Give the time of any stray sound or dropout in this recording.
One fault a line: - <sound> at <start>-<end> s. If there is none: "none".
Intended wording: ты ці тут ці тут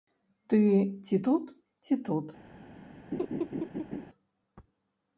- laugh at 3.1-4.1 s